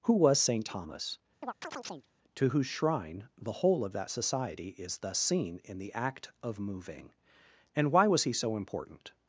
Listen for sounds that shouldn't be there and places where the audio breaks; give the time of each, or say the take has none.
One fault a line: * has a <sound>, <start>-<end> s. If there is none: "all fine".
* has a chirp, 1.4-2.1 s